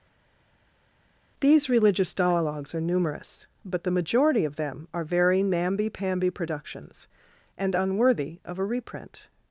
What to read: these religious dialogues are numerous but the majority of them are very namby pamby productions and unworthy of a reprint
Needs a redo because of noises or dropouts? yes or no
no